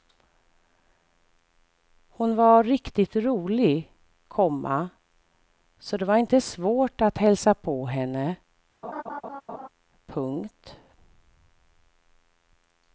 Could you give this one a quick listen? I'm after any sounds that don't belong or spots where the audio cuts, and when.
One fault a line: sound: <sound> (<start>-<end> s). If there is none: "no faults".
sound: laugh (8.8-9.7 s)